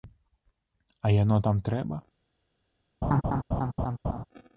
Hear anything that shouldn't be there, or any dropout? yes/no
yes